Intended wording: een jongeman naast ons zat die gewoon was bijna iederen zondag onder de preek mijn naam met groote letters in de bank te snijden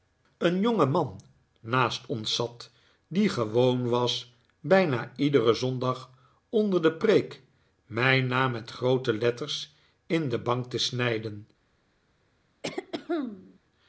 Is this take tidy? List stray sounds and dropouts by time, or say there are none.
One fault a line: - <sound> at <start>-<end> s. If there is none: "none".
- throat clearing at 12.6-13.6 s